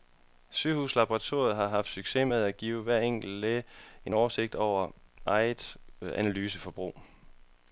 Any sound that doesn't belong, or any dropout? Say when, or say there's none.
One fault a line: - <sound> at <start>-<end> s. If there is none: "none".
none